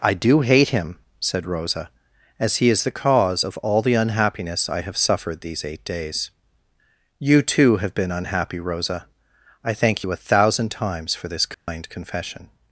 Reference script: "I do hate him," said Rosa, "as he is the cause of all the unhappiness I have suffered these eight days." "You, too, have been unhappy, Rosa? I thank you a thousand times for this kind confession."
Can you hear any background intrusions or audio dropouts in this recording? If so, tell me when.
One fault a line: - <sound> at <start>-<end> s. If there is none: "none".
- dropout at 11.5-11.7 s